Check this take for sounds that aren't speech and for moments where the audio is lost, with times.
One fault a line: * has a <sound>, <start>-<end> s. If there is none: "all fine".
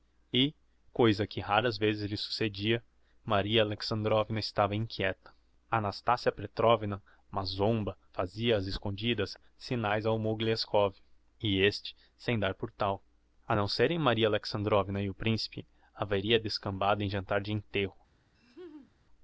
* has a laugh, 18.3-18.9 s